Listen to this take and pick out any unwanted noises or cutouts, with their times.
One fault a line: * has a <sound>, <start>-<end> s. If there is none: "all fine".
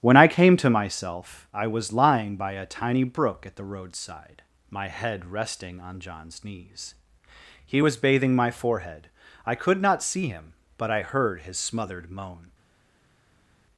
all fine